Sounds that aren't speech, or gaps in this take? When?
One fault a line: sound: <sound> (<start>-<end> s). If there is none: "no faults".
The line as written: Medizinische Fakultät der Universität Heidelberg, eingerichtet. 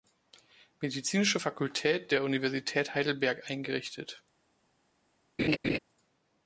sound: laugh (5.4-5.8 s)